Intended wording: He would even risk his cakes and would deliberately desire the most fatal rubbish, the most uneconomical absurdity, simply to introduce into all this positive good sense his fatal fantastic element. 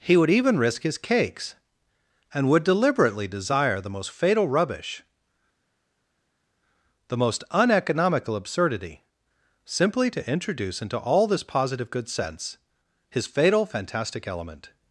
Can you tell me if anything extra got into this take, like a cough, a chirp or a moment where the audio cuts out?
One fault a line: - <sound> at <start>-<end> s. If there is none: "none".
none